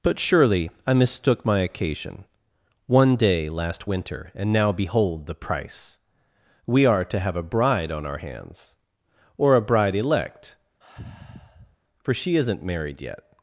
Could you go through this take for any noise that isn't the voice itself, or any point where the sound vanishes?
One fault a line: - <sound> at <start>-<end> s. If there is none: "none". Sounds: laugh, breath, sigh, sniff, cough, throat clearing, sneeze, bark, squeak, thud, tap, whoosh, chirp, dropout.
- sigh at 10.8-11.8 s